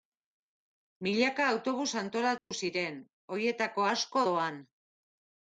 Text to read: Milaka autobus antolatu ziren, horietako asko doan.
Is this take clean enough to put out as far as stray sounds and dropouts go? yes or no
no